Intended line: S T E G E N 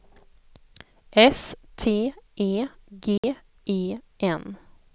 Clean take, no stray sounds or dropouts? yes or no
no